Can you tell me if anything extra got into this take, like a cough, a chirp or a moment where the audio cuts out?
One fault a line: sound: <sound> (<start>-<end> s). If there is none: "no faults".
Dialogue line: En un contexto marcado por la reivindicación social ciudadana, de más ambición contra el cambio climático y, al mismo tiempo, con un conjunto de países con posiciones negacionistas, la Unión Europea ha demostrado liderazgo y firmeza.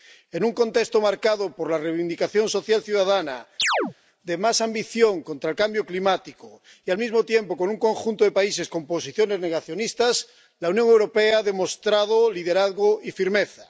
sound: chirp (3.6-3.9 s)